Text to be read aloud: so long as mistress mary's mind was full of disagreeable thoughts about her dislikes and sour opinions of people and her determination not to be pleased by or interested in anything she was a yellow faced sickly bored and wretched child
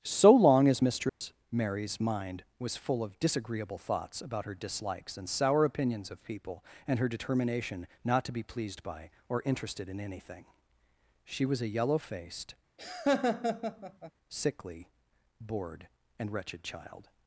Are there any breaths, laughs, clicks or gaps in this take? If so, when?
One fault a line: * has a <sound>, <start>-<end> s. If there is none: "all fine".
* has a dropout, 1.1-1.2 s
* has a laugh, 12.8-14.1 s